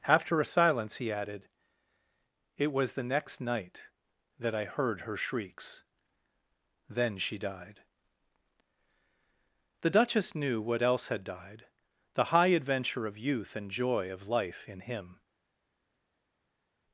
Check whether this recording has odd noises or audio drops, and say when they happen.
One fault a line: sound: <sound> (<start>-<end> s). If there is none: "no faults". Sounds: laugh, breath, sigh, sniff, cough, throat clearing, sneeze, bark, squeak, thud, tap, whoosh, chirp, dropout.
no faults